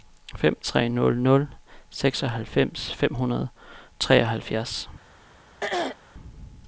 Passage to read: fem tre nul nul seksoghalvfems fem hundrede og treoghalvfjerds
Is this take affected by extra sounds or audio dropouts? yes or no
yes